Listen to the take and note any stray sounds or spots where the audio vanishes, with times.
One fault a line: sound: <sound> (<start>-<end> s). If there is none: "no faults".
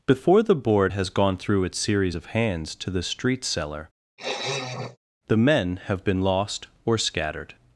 sound: sniff (4.2-5.0 s)